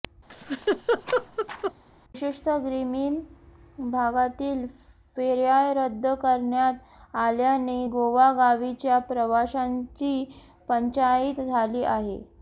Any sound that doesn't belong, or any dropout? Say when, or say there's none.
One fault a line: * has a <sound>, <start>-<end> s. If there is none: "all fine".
* has a laugh, 0.3-1.7 s